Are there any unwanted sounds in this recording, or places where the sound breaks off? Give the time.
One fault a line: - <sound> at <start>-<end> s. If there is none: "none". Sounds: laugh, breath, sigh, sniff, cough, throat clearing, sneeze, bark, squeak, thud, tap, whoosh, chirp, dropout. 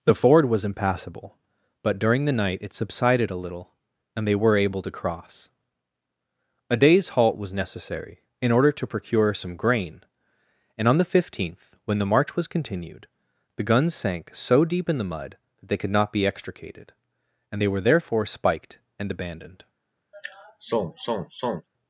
- sigh at 20.1-21.7 s